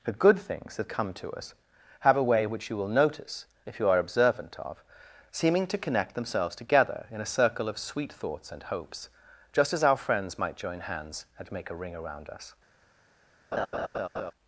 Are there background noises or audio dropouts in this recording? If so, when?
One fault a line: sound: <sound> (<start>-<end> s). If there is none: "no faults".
sound: laugh (13.5-14.3 s)